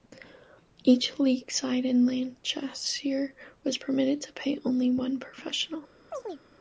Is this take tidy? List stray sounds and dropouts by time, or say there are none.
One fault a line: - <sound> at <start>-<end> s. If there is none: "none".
- chirp at 6.1-6.4 s